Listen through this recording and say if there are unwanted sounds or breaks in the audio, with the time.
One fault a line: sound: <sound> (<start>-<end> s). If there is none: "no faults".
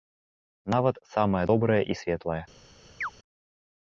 sound: chirp (3.0-3.1 s)